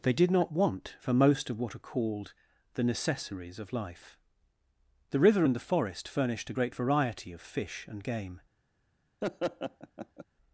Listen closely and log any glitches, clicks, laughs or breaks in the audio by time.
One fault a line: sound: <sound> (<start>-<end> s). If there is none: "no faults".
sound: laugh (9.2-10.2 s)